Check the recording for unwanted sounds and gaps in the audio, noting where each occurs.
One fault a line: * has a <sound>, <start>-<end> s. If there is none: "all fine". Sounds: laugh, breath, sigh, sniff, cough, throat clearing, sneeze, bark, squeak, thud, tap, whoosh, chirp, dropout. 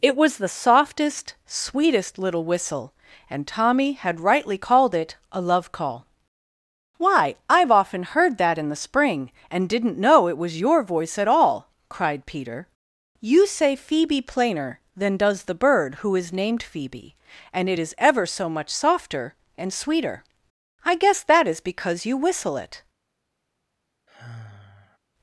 * has a sigh, 24.1-25.0 s